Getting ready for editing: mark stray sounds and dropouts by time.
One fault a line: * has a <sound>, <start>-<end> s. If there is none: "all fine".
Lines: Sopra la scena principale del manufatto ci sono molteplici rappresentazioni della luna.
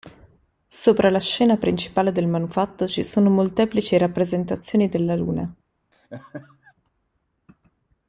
* has a laugh, 5.9-6.7 s